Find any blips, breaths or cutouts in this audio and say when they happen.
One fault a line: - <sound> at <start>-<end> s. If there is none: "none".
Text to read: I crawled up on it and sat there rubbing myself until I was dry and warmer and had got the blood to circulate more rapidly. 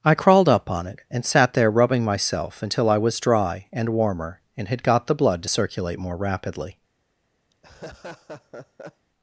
- laugh at 7.5-9.1 s